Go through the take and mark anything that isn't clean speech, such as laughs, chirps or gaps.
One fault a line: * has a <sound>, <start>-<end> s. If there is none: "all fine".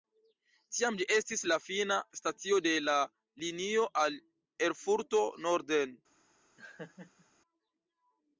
* has a laugh, 6.6-7.3 s